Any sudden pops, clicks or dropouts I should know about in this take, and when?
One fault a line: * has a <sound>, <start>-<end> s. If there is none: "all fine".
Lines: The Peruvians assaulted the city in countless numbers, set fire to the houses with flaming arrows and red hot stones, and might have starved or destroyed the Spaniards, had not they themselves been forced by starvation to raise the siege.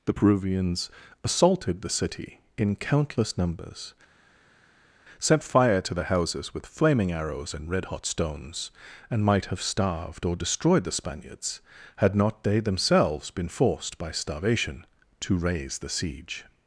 all fine